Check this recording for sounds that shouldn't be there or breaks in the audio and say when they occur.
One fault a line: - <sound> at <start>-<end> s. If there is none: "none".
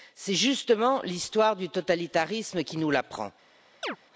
- chirp at 3.8-4.0 s